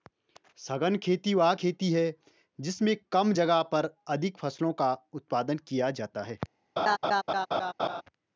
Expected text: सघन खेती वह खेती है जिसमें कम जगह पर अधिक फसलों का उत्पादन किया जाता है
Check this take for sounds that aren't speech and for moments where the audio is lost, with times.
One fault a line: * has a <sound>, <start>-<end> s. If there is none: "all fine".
* has a laugh, 6.8-8.0 s